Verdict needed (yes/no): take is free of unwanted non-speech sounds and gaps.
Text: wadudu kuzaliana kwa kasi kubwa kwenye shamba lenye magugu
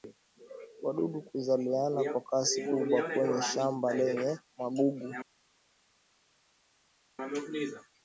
yes